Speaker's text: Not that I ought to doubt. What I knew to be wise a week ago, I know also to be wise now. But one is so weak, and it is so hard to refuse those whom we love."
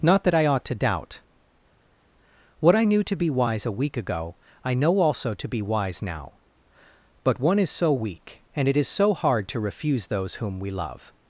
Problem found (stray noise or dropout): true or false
false